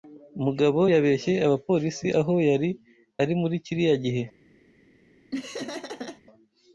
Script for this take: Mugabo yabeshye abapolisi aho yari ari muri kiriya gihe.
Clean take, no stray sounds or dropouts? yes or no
no